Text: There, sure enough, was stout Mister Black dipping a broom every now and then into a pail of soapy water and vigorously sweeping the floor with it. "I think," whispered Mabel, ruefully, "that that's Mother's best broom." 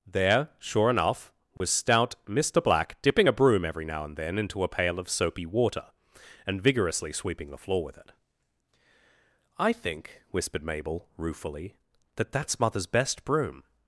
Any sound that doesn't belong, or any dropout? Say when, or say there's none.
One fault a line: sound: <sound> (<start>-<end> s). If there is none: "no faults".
sound: dropout (1.6-1.6 s)